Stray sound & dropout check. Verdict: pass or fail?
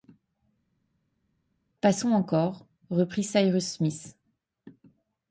pass